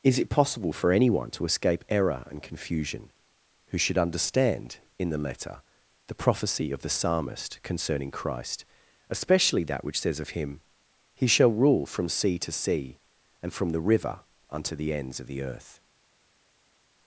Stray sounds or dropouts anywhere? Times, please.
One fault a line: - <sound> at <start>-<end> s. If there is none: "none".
none